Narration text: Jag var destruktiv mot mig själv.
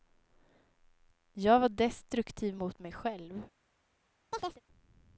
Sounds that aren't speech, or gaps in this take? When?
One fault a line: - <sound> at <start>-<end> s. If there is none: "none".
- chirp at 4.3-4.6 s